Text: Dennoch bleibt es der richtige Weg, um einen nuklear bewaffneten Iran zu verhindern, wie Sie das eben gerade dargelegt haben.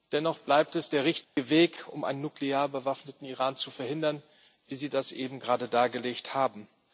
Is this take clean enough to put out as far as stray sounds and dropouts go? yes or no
no